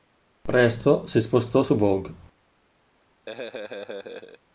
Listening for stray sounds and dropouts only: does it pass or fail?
fail